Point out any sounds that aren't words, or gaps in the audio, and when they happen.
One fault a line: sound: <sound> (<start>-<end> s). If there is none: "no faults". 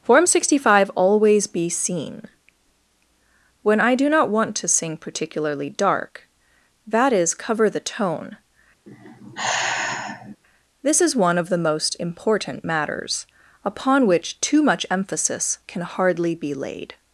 sound: sigh (8.9-10.4 s)